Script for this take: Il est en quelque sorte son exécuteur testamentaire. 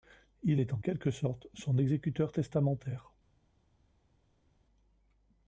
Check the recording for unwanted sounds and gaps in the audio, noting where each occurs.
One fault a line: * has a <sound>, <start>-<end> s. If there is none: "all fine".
all fine